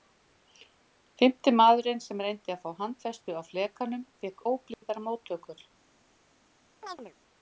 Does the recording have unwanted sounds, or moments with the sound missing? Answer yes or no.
yes